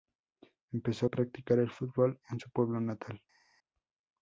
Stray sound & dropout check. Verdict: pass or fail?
pass